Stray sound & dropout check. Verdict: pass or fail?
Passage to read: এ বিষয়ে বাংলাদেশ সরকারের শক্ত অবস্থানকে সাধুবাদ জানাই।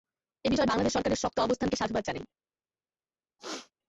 fail